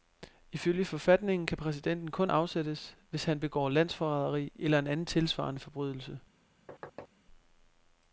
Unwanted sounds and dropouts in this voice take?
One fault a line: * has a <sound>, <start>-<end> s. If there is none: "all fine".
* has a thud, 6.7-7.1 s